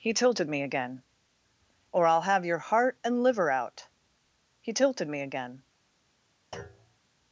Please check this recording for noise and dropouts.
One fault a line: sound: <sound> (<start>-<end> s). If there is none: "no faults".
sound: thud (6.5-7.0 s)